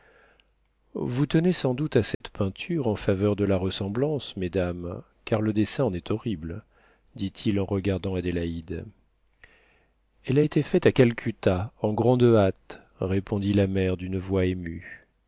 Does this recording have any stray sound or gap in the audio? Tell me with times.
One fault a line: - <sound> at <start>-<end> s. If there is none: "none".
- dropout at 2.1-2.2 s